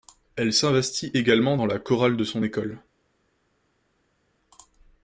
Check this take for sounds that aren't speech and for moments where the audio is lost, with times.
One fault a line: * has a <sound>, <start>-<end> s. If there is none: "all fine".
all fine